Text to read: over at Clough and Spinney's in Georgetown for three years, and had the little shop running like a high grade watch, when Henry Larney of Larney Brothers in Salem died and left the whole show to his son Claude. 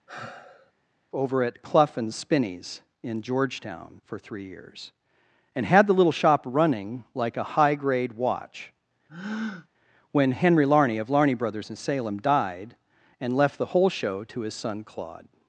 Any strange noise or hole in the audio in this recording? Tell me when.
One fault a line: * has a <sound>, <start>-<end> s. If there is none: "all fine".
* has a sigh, 0.1-0.7 s
* has a breath, 9.1-9.7 s